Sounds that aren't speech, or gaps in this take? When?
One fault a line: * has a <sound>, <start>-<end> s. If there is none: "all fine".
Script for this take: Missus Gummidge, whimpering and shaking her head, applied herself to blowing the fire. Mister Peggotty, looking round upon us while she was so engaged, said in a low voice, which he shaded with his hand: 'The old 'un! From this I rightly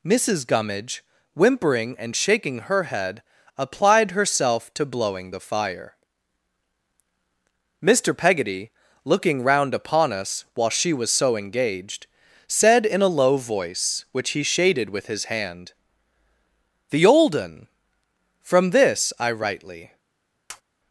* has a tap, 20.5-20.6 s